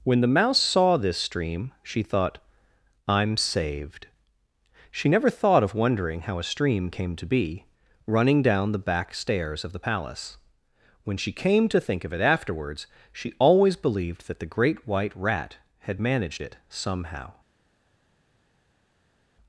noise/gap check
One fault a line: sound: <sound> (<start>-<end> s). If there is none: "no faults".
no faults